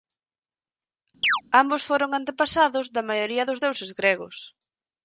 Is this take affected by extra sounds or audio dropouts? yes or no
yes